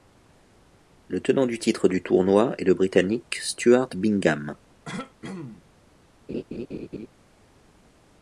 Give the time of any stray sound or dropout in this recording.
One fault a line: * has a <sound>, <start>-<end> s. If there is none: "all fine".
* has a throat clearing, 4.9-5.6 s
* has a laugh, 6.3-7.1 s